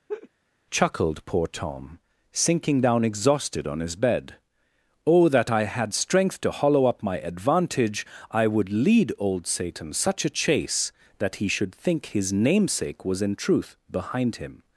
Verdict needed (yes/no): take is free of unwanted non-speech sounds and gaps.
no